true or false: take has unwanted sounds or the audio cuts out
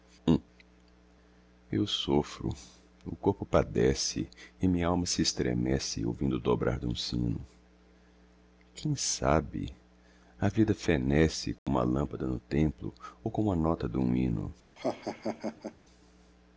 true